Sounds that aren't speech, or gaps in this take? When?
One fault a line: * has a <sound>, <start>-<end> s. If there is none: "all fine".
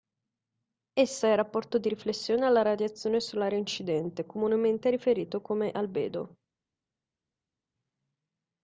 all fine